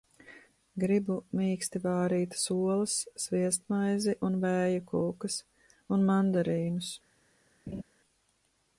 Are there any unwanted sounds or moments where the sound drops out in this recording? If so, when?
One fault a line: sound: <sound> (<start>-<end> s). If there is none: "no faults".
sound: laugh (7.7-7.8 s)